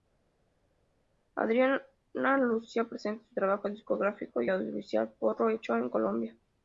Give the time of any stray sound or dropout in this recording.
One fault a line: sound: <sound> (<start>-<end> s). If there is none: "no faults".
no faults